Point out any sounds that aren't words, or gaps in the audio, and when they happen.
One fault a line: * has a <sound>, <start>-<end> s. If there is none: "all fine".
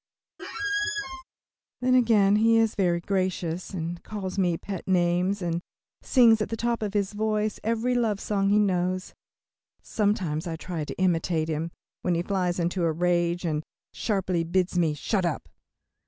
* has a squeak, 0.4-1.2 s